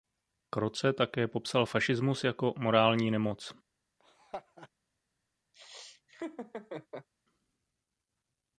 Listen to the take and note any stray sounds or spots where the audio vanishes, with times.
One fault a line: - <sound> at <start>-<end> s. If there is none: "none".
- laugh at 4.0-4.7 s
- laugh at 5.5-7.1 s